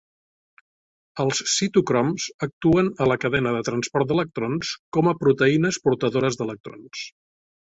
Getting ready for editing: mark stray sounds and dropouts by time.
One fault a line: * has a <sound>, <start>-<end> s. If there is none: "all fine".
all fine